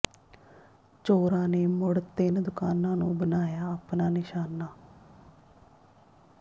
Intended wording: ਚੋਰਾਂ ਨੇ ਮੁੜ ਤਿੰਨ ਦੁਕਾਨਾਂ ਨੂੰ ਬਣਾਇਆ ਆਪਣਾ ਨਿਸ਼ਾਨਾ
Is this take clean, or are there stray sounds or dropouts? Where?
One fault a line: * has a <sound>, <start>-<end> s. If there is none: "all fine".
all fine